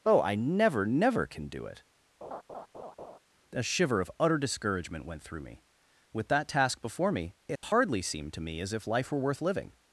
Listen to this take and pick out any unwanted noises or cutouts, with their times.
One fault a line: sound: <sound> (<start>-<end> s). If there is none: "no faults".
sound: laugh (2.2-3.2 s)
sound: dropout (7.6-7.6 s)